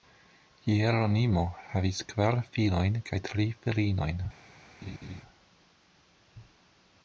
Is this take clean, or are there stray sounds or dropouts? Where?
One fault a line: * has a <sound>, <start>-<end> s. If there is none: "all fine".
* has a laugh, 4.8-5.2 s